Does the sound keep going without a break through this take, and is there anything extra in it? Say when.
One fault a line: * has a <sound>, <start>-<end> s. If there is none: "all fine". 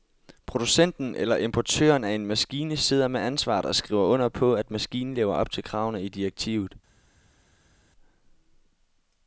all fine